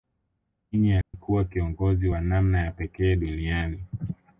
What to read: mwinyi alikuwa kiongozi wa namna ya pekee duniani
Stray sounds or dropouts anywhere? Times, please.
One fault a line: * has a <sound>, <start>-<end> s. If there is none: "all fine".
* has a dropout, 1.0-1.1 s